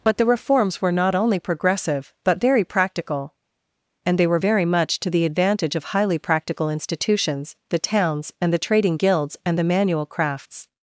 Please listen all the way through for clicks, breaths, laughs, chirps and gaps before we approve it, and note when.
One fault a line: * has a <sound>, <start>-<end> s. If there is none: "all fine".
all fine